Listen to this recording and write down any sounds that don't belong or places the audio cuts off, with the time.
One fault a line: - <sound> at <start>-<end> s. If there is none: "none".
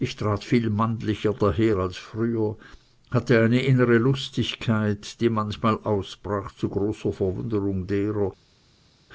none